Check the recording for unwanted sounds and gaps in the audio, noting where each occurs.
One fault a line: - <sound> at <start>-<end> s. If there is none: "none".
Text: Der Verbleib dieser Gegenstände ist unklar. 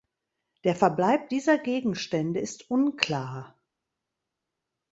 none